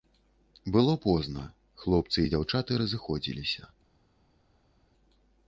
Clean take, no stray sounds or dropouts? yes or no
yes